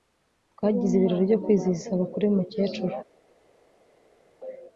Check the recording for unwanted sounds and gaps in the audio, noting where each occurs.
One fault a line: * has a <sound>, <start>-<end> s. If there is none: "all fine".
all fine